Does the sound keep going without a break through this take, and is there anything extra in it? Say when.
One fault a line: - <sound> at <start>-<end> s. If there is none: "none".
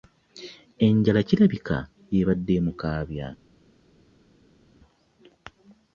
none